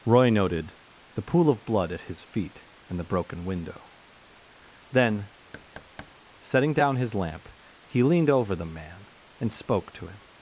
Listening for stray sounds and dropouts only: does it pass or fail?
fail